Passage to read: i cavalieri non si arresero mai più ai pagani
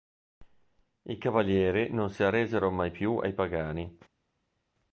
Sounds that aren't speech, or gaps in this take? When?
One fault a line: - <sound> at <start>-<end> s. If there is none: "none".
none